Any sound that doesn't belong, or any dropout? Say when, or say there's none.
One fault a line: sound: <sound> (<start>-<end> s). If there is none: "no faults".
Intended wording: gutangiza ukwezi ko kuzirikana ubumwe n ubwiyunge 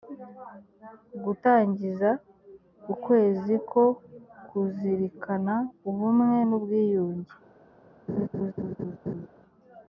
sound: laugh (8.1-9.3 s)